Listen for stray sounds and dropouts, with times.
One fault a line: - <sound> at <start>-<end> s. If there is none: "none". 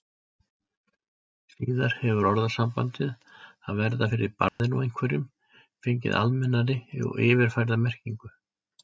- dropout at 4.5-4.6 s